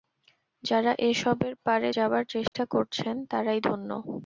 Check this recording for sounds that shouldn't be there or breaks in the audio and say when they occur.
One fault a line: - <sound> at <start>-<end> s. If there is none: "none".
- dropout at 2.5-2.5 s